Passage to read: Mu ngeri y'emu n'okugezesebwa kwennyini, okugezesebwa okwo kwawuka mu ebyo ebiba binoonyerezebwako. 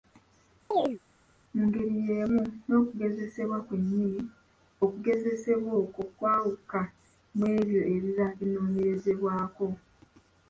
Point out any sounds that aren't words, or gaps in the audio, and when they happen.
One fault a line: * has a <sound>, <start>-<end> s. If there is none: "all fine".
* has a chirp, 0.7-1.0 s